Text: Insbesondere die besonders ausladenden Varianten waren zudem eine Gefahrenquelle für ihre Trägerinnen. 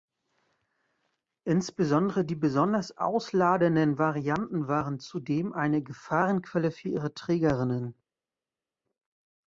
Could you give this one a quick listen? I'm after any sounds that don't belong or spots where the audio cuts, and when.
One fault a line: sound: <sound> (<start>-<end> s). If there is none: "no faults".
no faults